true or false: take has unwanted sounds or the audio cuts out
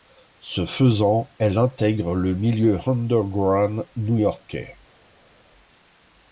false